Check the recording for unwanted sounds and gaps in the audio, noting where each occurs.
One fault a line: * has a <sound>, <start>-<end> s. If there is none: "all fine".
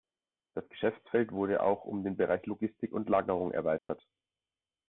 * has a dropout, 3.8-3.9 s